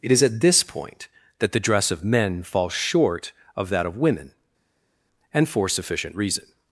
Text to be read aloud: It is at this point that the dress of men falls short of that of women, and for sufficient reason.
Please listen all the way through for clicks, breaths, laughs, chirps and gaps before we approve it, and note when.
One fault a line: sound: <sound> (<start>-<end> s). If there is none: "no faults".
no faults